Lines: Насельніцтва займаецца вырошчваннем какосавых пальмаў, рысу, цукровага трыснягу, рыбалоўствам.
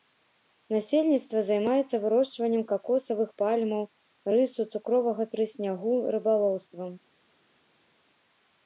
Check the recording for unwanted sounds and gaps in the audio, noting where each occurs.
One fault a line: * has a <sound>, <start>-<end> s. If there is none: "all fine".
all fine